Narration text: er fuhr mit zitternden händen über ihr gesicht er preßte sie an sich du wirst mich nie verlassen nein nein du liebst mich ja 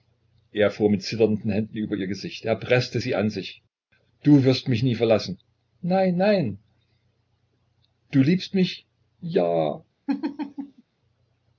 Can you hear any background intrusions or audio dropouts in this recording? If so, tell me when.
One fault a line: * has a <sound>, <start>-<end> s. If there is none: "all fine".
* has a laugh, 10.1-10.8 s